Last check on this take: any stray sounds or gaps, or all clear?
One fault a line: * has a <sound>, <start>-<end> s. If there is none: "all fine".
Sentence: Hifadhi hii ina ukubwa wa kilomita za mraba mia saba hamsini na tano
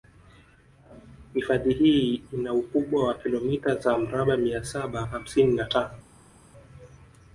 all fine